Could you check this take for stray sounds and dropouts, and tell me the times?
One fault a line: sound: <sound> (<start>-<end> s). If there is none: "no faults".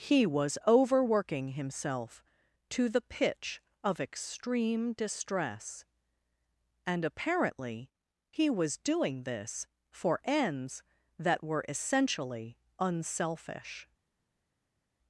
no faults